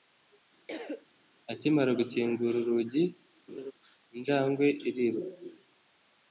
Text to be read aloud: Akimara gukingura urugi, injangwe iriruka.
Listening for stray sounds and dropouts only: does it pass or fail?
fail